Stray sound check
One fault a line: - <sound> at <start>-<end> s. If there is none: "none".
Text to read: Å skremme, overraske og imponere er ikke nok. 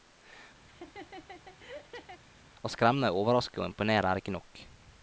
- laugh at 0.7-2.2 s